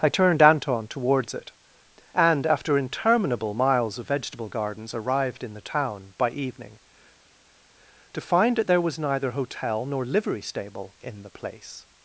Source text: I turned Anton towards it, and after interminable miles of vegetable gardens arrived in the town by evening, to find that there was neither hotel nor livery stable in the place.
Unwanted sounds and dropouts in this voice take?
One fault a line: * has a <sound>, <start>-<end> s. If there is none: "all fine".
all fine